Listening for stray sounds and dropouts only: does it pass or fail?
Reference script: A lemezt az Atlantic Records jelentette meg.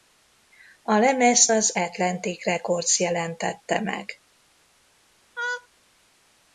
fail